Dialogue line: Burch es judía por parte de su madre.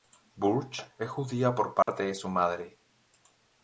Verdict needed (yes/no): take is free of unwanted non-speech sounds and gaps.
no